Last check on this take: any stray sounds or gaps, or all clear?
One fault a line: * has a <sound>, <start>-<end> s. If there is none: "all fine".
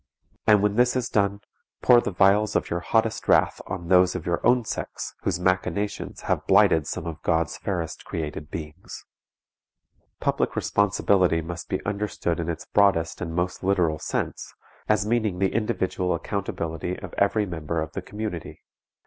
all fine